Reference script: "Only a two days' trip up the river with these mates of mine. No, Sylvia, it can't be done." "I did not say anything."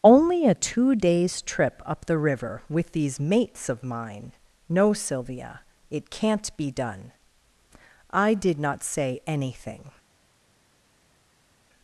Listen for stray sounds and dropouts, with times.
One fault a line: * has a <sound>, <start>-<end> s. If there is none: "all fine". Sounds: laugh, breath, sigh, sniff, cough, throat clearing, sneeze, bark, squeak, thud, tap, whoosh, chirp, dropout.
all fine